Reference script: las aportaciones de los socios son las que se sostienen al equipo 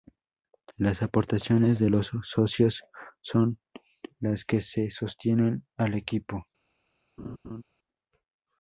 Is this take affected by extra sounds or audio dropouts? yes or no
yes